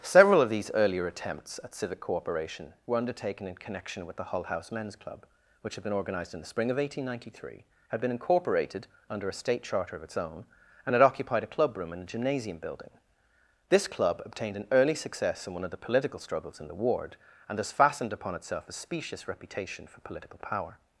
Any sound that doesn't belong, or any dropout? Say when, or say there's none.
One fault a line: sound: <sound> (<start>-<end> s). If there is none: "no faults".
no faults